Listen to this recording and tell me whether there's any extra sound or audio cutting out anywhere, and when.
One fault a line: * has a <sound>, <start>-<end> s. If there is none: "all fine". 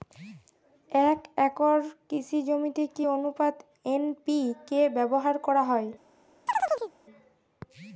* has a chirp, 6.5-6.9 s